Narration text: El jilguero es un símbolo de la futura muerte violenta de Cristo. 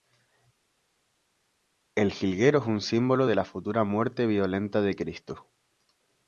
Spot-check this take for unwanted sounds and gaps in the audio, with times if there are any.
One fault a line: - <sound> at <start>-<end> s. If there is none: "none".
none